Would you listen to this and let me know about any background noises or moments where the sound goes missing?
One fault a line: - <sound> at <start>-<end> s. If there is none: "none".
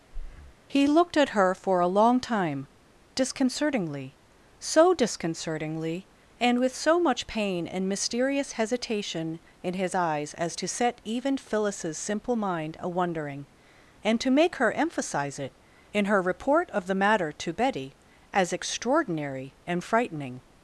- breath at 0.1-0.6 s